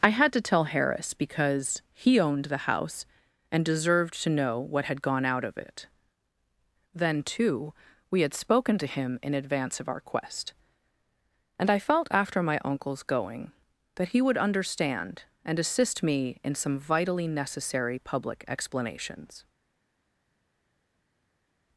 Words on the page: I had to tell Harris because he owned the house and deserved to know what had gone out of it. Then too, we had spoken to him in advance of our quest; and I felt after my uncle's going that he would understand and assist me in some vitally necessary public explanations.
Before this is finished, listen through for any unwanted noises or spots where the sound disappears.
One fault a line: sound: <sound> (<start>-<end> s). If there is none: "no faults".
no faults